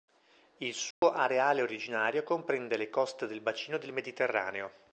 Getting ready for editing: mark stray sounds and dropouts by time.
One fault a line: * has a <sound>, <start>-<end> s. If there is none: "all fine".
* has a dropout, 0.9-1.0 s